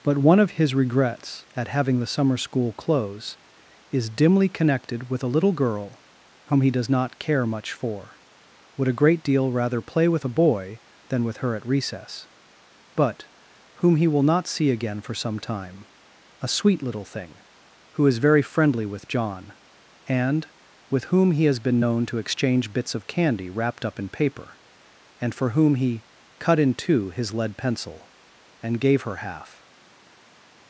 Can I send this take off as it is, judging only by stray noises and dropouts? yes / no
yes